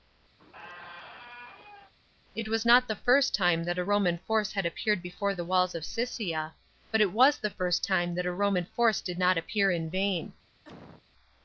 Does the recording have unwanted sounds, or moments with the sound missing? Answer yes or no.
yes